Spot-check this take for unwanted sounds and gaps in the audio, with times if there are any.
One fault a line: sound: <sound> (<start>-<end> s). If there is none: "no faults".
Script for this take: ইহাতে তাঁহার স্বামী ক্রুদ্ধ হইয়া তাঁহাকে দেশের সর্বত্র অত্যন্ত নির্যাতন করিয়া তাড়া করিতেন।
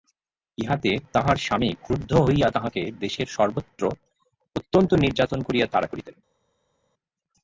no faults